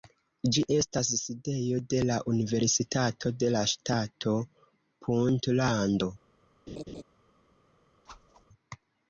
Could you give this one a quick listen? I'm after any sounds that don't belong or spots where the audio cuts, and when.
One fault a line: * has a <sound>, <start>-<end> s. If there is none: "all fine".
* has a laugh, 6.7-7.0 s
* has a whoosh, 8.1-8.5 s